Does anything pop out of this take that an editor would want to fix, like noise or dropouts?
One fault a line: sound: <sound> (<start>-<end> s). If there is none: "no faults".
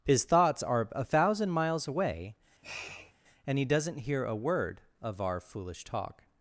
sound: sniff (2.6-3.1 s)